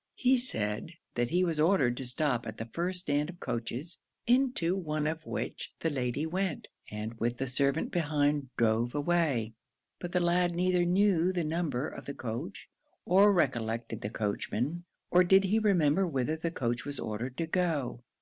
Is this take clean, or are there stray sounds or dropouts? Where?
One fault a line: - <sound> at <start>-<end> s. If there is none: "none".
none